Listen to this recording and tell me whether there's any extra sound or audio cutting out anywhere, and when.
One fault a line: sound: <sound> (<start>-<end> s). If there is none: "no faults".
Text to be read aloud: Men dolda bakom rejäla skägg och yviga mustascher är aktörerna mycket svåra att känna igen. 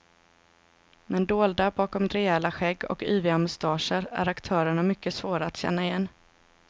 no faults